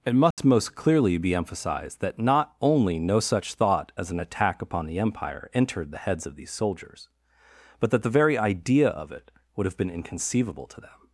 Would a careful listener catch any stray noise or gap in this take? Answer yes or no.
yes